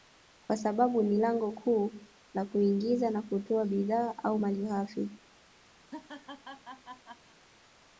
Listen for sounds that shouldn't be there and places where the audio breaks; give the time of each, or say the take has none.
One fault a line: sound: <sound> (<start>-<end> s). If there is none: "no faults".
sound: laugh (5.8-7.4 s)